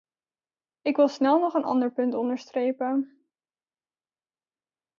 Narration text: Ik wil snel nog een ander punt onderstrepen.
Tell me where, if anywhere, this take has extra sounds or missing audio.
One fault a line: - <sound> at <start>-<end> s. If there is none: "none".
none